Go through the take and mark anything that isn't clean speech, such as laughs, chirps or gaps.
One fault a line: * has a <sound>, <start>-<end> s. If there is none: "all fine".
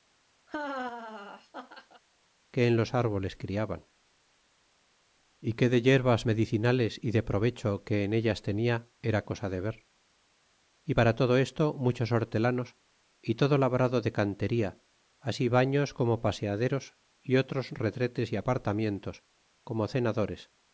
* has a laugh, 0.5-2.0 s